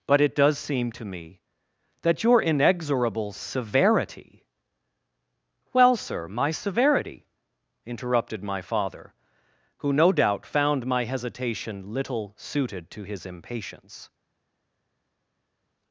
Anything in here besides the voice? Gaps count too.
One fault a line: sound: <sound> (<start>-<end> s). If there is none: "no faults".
no faults